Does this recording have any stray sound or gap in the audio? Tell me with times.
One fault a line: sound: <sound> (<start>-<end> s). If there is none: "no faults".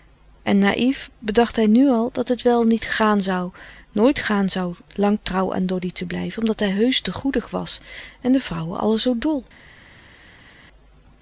no faults